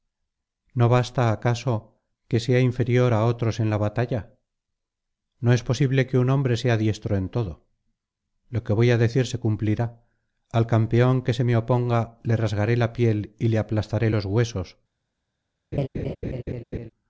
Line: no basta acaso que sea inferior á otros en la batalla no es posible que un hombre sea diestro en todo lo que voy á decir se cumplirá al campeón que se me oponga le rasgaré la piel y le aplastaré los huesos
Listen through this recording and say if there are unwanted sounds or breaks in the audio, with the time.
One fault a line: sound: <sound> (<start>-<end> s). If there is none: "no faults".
sound: laugh (15.7-16.9 s)